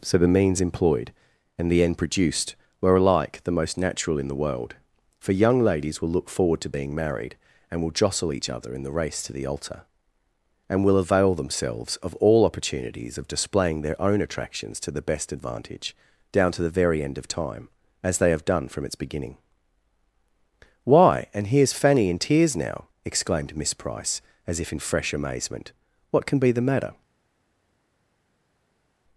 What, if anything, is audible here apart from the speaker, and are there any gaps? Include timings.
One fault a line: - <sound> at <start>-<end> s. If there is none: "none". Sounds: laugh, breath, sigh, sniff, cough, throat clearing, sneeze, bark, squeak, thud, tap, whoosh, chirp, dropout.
none